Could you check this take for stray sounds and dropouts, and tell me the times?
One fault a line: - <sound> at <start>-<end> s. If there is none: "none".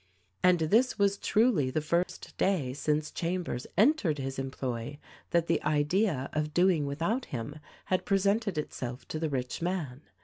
- dropout at 2.0-2.1 s